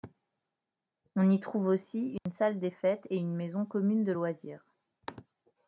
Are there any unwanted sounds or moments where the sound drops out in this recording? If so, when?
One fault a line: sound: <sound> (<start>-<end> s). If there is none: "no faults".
sound: dropout (2.2-2.3 s)